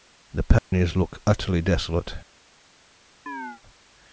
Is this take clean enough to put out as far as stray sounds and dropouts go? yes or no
no